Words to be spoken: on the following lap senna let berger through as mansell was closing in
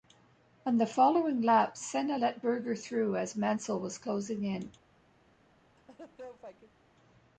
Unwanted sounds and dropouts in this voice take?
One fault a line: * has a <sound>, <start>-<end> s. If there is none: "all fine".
* has a laugh, 5.8-6.8 s